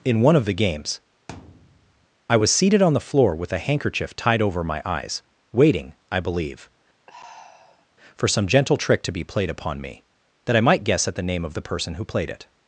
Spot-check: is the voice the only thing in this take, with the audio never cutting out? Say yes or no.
no